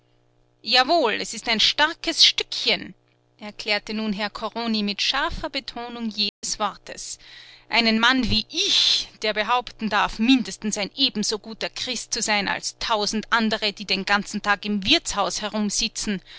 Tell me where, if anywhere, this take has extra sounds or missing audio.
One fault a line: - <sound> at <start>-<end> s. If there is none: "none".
- dropout at 6.3-6.4 s